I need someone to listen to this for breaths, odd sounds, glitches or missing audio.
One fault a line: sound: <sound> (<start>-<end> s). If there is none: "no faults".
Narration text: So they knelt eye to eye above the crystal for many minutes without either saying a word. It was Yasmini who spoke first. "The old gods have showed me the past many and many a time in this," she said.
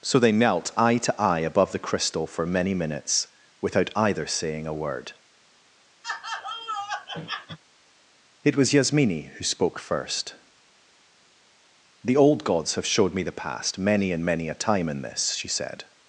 sound: laugh (6.0-7.6 s)